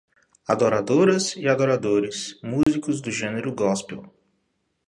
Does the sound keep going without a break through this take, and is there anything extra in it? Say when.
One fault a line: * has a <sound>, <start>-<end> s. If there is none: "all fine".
* has a dropout, 2.6-2.7 s